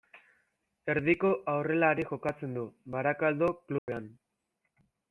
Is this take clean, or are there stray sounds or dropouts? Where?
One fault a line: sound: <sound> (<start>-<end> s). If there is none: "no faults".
sound: dropout (3.8-3.9 s)